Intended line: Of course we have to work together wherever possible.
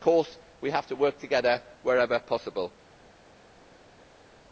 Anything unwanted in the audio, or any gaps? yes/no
no